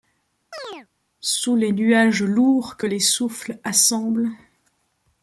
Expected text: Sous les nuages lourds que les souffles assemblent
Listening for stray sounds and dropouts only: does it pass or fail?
fail